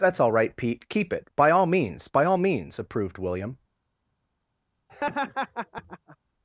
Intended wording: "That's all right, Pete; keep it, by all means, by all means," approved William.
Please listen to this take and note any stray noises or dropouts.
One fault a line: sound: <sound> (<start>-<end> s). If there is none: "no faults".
sound: laugh (4.9-6.2 s)